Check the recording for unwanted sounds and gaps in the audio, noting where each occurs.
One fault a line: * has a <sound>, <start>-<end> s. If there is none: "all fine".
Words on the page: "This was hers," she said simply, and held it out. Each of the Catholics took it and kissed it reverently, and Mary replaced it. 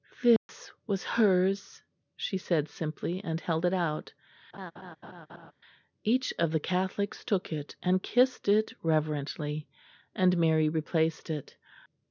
* has a dropout, 0.4-0.5 s
* has a laugh, 4.5-5.5 s